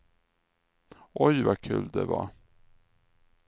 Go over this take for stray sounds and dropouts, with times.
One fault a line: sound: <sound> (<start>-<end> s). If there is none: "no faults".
no faults